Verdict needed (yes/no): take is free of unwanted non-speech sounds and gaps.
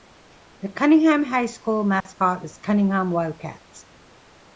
no